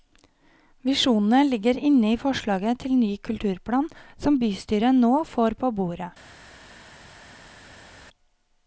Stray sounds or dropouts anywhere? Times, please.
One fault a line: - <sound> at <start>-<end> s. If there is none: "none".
none